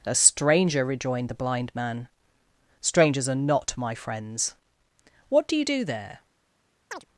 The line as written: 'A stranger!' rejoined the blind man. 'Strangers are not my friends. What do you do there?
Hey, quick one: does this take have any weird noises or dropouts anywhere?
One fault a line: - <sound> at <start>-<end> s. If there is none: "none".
- chirp at 6.9-7.1 s